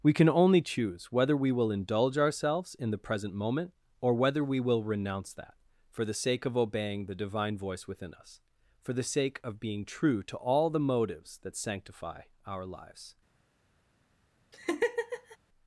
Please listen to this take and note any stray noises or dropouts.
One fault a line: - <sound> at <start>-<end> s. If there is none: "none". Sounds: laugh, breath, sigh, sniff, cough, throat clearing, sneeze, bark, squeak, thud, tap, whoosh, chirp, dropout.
- laugh at 14.5-15.4 s